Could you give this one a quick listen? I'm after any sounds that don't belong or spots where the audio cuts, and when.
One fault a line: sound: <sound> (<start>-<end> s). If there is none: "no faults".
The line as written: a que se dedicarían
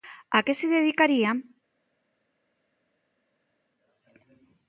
no faults